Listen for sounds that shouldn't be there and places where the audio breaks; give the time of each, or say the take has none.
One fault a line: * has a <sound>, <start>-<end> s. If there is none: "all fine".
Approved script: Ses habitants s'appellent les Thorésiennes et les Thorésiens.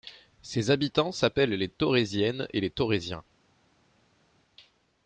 all fine